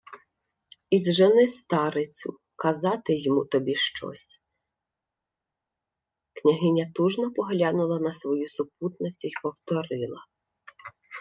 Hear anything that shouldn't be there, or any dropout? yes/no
no